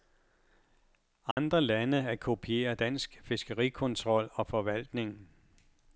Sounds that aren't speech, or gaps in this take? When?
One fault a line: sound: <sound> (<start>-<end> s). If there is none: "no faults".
sound: dropout (1.3-1.4 s)